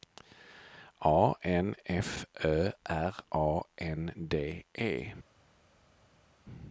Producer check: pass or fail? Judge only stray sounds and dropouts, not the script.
pass